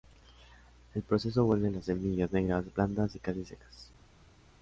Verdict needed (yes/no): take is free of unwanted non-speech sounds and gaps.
yes